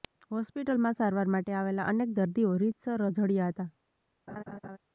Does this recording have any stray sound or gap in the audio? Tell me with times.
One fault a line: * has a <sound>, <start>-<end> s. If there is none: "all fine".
* has a laugh, 4.3-4.8 s